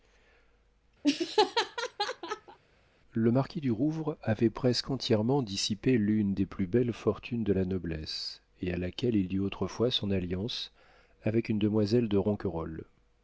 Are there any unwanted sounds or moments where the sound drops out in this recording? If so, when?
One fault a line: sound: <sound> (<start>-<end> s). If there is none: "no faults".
sound: laugh (1.0-2.6 s)